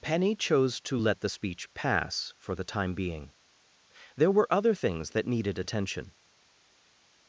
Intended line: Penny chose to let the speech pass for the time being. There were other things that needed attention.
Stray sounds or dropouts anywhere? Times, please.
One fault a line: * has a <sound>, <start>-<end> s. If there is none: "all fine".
all fine